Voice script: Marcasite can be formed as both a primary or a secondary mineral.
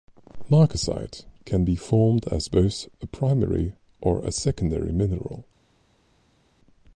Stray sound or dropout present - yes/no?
no